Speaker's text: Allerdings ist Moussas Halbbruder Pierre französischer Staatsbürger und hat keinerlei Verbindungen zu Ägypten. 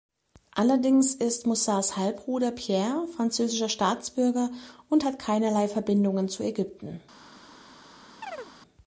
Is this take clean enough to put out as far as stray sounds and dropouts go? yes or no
no